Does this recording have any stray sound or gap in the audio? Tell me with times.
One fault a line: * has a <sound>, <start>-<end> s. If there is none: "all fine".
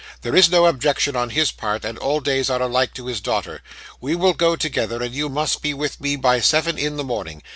all fine